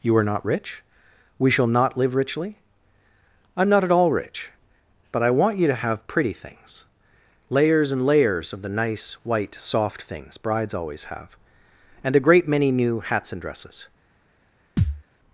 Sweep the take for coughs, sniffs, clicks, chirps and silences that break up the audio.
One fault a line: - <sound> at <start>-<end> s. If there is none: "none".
- thud at 14.8-15.0 s